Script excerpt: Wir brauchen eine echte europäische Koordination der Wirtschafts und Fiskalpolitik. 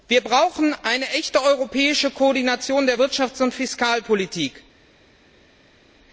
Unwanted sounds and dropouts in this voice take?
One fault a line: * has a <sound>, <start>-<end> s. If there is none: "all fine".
all fine